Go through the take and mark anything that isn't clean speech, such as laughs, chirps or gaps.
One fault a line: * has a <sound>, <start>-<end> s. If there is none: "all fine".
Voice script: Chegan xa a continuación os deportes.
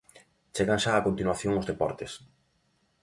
all fine